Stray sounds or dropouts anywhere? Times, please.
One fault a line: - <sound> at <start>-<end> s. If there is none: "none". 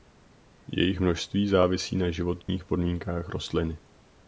- dropout at 2.4-2.5 s